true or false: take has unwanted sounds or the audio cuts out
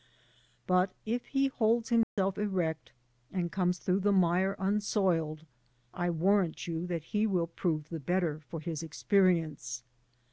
true